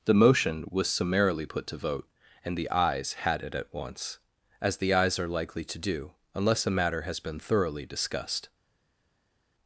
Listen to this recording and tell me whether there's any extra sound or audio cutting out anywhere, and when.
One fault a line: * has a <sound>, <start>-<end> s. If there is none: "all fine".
all fine